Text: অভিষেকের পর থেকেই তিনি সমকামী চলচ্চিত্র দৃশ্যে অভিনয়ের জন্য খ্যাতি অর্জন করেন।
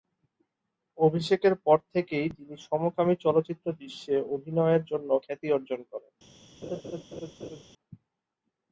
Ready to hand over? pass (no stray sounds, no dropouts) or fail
fail